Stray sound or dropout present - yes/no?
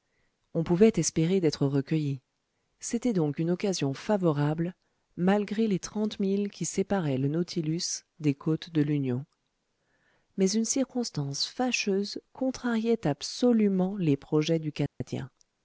yes